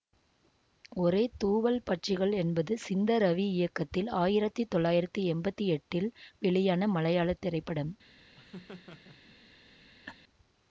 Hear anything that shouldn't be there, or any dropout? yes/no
yes